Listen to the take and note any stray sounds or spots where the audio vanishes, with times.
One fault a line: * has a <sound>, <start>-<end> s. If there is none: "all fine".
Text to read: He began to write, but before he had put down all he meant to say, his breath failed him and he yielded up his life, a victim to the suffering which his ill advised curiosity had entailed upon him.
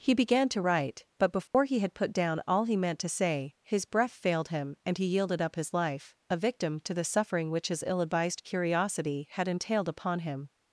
* has a dropout, 1.5-1.5 s